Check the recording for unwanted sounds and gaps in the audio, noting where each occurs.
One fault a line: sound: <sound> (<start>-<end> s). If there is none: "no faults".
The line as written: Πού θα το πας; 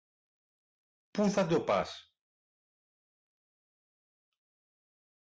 no faults